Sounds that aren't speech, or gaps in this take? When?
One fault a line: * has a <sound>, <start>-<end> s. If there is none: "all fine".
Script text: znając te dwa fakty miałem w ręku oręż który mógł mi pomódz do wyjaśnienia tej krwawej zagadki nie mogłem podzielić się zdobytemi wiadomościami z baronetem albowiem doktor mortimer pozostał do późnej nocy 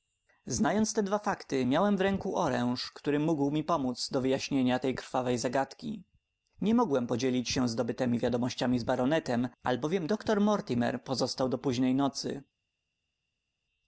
all fine